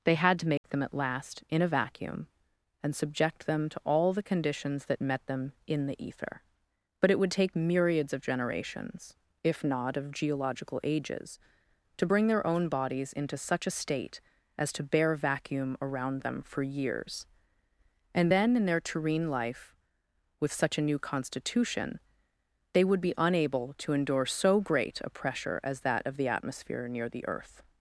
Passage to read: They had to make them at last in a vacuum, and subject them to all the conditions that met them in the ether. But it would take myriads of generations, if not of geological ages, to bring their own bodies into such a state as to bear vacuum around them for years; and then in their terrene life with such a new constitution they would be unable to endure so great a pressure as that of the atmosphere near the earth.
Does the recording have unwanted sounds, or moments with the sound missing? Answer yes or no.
yes